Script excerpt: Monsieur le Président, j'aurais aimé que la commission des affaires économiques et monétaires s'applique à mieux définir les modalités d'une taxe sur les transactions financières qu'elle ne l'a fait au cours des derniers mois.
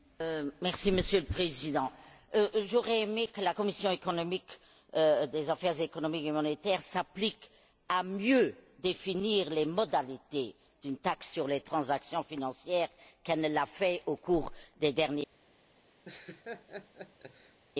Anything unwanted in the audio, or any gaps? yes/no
yes